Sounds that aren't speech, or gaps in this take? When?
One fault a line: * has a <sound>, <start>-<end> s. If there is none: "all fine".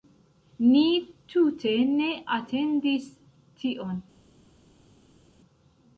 all fine